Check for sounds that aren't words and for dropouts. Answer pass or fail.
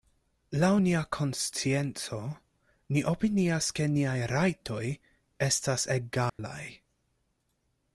fail